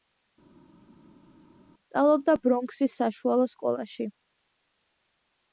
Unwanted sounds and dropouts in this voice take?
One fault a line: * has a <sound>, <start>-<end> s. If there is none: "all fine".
all fine